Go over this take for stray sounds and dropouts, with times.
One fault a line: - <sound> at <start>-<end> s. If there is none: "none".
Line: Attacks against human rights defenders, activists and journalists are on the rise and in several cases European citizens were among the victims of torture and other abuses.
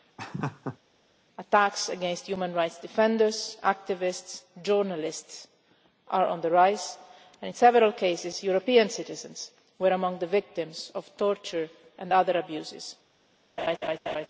- laugh at 0.2-0.8 s
- laugh at 13.6-14.3 s